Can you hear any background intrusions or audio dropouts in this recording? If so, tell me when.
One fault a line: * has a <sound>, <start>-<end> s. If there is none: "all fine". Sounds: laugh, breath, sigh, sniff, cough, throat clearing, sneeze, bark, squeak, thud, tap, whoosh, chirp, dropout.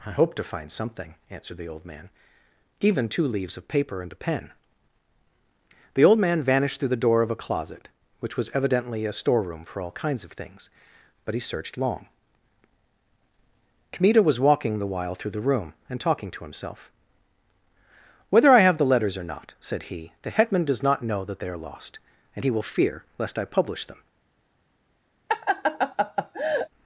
* has a laugh, 25.3-26.7 s